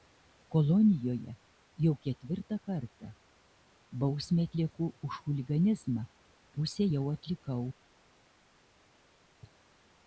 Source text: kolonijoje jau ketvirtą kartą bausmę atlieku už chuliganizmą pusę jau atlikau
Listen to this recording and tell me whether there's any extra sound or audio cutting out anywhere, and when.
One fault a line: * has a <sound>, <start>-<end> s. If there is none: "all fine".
all fine